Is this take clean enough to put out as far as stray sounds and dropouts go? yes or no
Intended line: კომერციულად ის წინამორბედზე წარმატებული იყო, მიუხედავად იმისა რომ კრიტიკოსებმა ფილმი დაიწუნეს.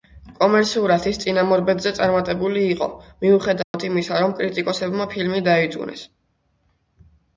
no